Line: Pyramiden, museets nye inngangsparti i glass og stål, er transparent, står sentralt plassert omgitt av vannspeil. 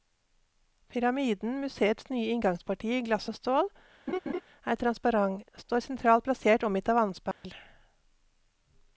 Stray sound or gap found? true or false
true